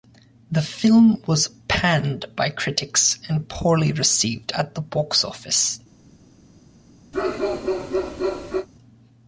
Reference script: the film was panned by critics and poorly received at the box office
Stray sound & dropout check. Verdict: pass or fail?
fail